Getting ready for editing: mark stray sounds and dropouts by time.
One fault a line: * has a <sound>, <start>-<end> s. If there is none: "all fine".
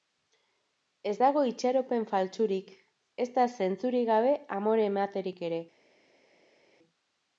all fine